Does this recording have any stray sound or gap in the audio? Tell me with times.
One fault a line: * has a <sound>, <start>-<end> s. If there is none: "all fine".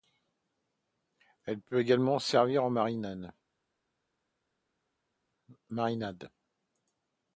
all fine